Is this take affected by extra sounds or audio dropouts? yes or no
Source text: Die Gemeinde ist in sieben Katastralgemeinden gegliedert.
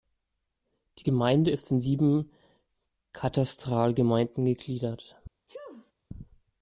yes